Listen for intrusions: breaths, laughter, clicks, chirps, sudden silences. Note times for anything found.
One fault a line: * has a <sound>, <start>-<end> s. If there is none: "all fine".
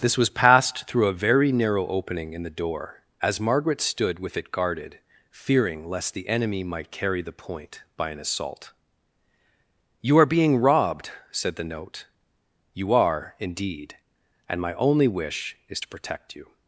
all fine